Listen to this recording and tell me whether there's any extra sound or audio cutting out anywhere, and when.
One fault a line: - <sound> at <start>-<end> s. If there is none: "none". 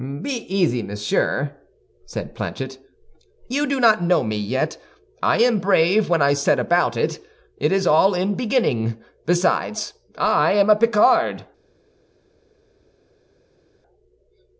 none